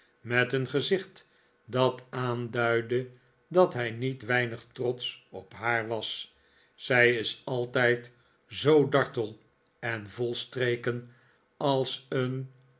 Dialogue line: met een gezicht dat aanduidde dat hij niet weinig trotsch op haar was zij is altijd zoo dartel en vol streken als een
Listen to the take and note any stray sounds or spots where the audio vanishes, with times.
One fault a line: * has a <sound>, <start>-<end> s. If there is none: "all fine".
all fine